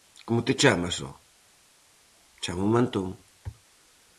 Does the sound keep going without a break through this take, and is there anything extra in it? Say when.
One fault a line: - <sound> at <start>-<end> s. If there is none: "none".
none